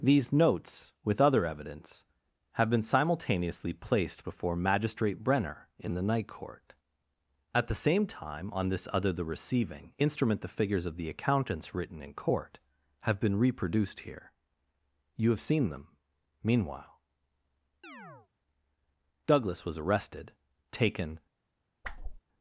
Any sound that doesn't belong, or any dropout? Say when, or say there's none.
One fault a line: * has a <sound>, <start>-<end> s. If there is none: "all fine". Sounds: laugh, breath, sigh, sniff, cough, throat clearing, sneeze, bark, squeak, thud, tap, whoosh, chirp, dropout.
* has a chirp, 17.8-18.3 s
* has a whoosh, 21.8-22.2 s